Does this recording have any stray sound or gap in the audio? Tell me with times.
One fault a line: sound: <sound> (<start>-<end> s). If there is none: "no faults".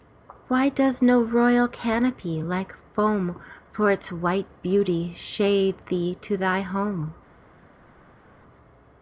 no faults